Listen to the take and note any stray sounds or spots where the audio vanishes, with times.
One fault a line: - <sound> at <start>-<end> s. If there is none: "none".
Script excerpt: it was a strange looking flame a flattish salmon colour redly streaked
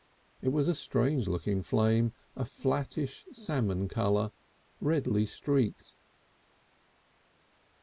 none